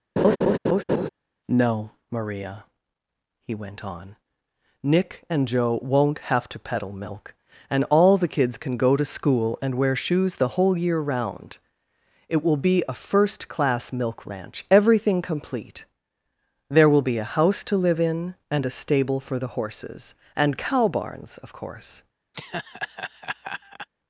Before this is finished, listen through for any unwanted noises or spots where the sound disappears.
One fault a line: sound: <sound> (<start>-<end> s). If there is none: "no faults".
sound: laugh (0.2-1.1 s)
sound: laugh (22.3-23.9 s)